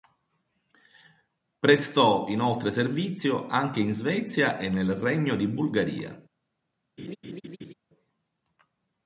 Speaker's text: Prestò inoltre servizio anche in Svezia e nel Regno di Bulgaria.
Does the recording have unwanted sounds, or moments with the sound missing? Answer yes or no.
yes